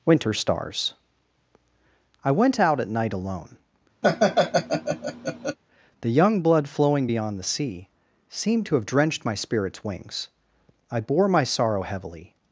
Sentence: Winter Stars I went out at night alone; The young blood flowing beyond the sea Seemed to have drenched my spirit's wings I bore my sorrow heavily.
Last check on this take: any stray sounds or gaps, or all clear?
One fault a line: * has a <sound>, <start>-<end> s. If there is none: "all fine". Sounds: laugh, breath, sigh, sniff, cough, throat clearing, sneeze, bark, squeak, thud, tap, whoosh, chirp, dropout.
* has a laugh, 4.0-5.6 s